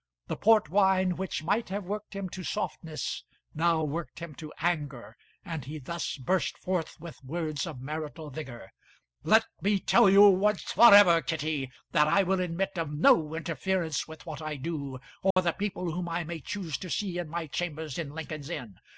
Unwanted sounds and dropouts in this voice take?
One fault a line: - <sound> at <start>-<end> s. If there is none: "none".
- dropout at 15.3-15.4 s